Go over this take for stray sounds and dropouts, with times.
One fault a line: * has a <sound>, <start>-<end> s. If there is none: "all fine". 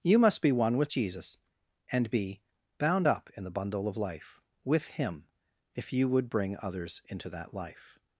all fine